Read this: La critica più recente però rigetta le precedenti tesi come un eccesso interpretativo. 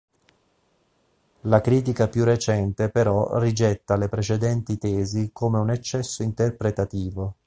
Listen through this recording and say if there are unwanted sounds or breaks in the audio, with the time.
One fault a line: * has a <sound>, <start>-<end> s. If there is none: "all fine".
all fine